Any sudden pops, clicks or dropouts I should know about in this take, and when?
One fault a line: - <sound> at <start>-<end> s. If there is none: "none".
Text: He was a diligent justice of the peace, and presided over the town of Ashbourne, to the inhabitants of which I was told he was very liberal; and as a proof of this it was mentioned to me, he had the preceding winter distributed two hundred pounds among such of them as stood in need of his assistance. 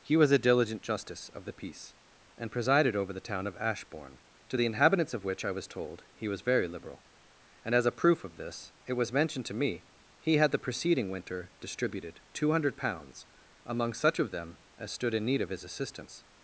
none